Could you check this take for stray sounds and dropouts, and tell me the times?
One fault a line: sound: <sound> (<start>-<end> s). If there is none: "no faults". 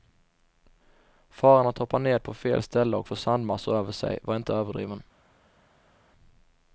no faults